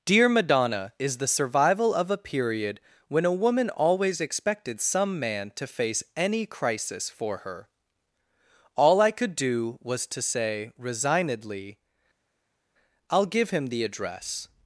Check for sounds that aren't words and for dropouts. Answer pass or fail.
pass